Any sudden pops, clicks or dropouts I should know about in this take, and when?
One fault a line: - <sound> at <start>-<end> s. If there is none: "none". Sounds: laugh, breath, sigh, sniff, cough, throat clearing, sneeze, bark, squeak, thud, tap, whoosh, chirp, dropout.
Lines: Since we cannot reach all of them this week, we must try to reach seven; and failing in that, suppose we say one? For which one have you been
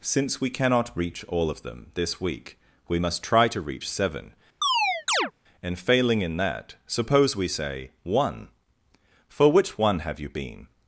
- chirp at 4.6-5.3 s